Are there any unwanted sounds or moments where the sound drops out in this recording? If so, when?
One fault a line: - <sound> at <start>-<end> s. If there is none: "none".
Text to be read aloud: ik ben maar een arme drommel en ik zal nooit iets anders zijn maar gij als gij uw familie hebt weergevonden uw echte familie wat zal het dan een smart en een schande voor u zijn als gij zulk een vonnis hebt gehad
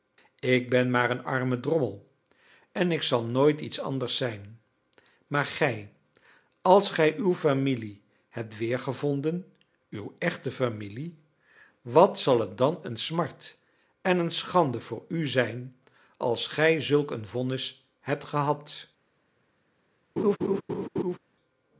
- laugh at 20.2-21.2 s